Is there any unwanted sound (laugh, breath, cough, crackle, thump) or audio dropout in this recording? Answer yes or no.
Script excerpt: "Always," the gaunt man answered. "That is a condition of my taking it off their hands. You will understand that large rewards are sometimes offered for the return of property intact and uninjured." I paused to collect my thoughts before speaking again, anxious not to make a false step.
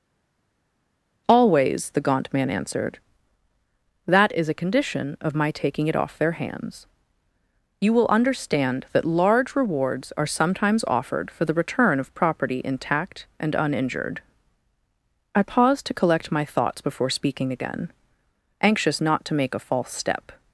no